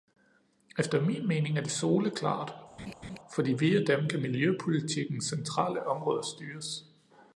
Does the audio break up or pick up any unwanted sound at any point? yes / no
yes